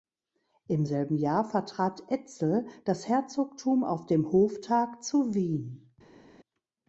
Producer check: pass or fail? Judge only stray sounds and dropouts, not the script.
pass